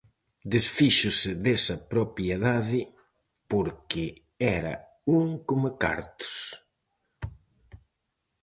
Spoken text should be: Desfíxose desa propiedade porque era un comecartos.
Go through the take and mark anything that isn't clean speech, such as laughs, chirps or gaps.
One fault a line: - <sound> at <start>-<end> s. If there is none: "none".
none